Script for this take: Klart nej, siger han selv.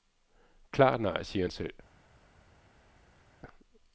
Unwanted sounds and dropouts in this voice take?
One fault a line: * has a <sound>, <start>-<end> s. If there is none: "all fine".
all fine